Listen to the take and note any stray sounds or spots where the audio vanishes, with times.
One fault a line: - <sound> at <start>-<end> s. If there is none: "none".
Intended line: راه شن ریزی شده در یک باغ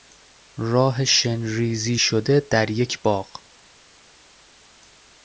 none